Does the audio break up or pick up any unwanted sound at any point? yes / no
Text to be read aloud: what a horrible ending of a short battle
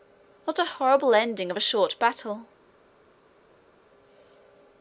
no